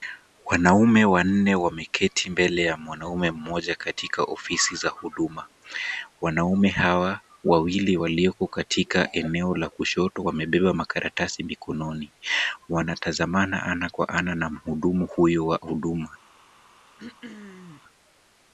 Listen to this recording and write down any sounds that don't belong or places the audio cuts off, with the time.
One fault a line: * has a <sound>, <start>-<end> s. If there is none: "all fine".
* has a throat clearing, 17.0-17.8 s